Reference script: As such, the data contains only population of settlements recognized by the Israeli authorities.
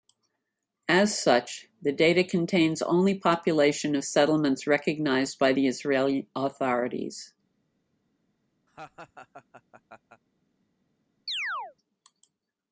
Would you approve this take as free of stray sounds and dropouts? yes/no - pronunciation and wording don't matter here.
no